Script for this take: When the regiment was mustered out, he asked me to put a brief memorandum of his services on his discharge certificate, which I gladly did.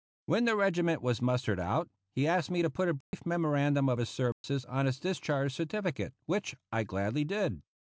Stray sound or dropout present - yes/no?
yes